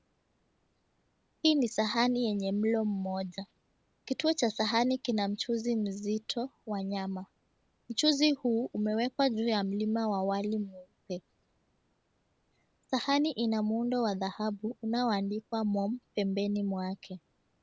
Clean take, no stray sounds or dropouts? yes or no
yes